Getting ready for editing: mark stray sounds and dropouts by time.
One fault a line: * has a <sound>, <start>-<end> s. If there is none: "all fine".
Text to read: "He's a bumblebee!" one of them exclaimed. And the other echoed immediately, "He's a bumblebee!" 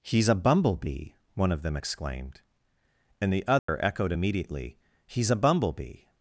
* has a dropout, 3.6-3.7 s